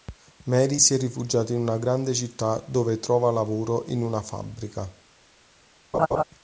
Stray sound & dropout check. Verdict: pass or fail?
fail